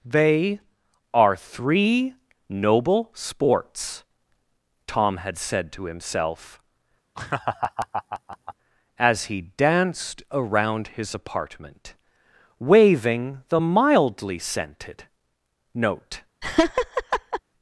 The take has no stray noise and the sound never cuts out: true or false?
false